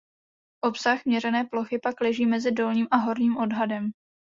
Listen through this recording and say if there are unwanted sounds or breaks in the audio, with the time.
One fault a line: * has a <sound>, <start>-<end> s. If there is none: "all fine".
all fine